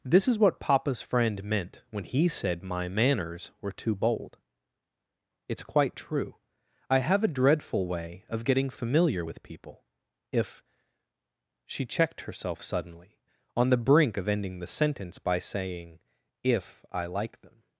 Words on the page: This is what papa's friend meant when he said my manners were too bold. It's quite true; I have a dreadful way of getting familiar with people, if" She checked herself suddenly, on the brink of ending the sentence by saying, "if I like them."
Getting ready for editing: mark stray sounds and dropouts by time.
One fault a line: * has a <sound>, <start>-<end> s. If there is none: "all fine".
all fine